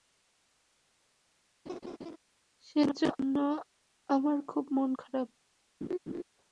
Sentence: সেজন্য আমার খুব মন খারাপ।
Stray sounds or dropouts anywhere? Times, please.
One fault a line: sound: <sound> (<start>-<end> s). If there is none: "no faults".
sound: laugh (1.7-2.2 s)
sound: laugh (5.8-6.2 s)